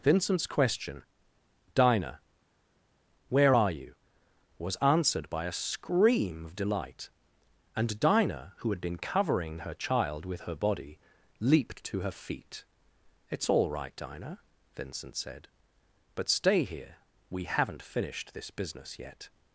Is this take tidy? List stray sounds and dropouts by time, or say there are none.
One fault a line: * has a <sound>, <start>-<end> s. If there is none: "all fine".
all fine